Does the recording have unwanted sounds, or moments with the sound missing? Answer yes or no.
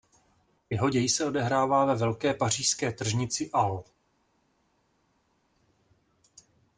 no